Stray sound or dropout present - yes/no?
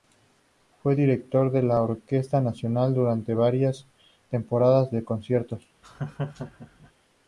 yes